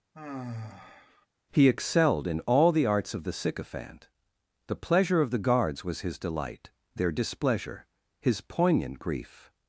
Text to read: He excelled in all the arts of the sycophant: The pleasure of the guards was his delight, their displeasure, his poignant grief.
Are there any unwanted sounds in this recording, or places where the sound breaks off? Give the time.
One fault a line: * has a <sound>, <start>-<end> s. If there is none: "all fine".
* has a sigh, 0.1-1.3 s